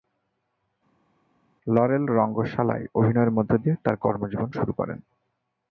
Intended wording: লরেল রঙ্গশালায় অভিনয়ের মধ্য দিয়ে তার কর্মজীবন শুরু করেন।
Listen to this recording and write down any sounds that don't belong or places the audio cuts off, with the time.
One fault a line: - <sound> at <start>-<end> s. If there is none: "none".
none